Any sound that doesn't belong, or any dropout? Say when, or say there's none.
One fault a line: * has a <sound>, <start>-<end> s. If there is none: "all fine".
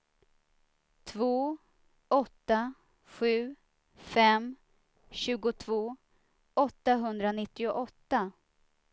all fine